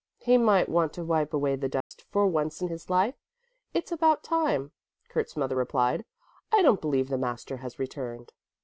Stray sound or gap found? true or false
true